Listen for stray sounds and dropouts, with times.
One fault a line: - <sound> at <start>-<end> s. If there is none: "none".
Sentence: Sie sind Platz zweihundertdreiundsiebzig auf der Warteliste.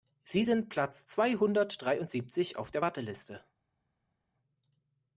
none